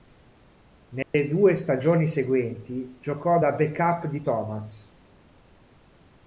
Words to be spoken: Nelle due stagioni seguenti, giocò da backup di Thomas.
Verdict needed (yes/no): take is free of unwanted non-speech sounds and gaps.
no